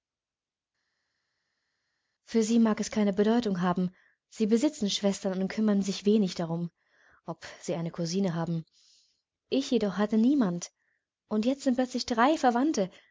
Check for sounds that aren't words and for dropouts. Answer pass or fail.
pass